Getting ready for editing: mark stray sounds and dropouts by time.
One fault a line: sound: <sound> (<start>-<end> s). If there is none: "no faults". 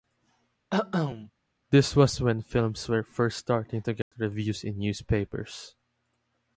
sound: cough (0.7-1.3 s)
sound: dropout (4.0-4.1 s)